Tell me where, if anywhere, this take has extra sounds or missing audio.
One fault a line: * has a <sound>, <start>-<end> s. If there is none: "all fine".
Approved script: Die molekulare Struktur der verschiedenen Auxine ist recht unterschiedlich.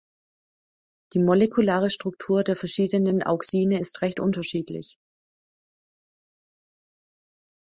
all fine